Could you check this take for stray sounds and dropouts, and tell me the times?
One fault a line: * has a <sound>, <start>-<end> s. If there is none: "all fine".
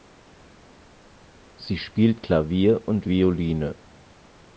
all fine